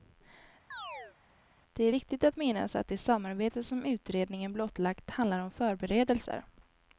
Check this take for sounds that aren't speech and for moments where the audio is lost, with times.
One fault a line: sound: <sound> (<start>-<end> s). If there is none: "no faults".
sound: chirp (0.7-1.2 s)